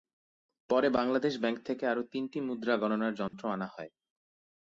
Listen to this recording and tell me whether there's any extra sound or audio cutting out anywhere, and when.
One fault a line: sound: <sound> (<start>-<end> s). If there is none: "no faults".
sound: dropout (3.3-3.3 s)